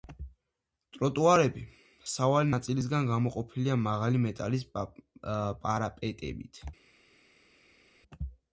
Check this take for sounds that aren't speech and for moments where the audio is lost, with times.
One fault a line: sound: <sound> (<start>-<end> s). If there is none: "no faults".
no faults